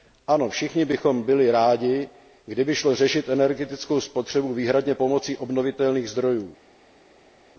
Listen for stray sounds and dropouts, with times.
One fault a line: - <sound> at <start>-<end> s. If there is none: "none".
none